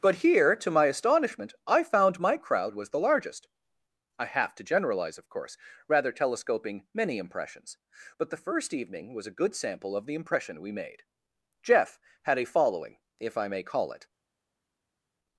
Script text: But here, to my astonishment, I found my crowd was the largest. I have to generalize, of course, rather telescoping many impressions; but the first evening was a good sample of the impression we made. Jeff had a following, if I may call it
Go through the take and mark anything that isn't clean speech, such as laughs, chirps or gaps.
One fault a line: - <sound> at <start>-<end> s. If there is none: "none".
none